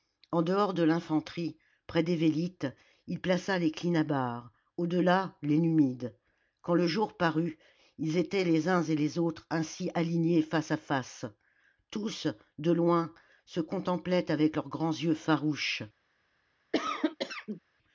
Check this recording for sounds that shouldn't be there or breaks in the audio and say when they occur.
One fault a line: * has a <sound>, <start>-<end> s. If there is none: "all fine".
* has a cough, 16.7-17.6 s